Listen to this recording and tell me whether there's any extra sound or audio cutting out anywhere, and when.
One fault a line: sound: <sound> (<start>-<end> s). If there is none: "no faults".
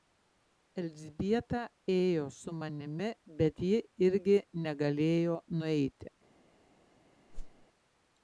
sound: whoosh (7.3-7.7 s)